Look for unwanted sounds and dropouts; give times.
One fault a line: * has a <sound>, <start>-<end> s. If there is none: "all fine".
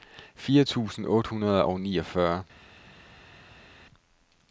all fine